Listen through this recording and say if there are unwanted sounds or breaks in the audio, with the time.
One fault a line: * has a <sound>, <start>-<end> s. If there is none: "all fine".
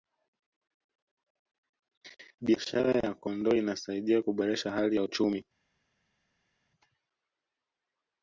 all fine